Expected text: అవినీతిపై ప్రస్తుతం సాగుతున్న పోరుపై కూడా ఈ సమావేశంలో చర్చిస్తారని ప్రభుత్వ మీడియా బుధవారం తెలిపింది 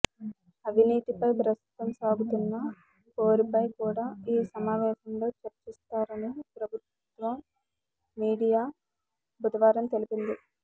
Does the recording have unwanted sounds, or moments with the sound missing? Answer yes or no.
no